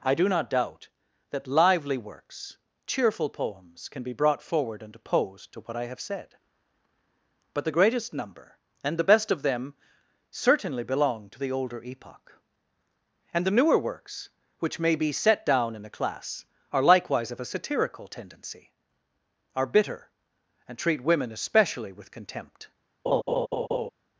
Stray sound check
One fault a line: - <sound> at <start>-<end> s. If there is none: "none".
- laugh at 23.1-23.9 s